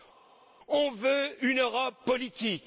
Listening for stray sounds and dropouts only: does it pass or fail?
pass